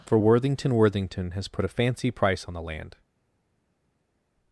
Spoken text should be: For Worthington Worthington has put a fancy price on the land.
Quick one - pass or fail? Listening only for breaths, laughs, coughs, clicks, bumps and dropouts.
pass